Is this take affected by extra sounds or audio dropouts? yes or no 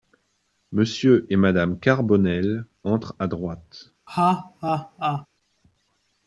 yes